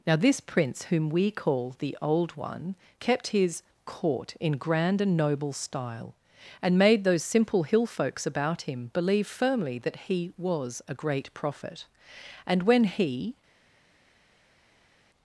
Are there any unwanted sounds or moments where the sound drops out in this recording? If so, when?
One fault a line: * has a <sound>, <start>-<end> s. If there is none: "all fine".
all fine